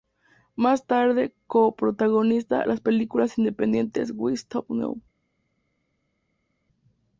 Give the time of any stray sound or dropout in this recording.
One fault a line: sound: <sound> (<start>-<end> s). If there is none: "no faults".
no faults